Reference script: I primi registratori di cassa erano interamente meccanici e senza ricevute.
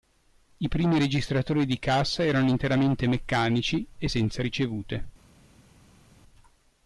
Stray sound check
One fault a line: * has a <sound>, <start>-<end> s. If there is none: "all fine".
all fine